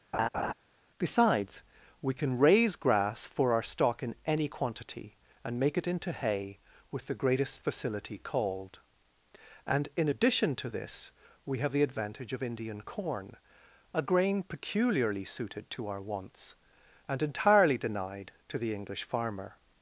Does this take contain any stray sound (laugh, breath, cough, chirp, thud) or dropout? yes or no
yes